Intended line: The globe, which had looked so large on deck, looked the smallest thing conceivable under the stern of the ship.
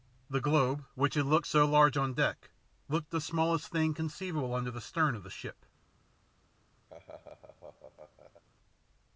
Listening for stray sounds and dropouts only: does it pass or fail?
fail